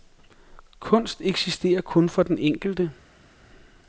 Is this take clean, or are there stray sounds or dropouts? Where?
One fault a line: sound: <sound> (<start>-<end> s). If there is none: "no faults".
no faults